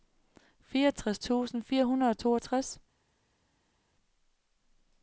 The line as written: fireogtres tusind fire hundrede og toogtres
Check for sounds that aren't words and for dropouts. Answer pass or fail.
pass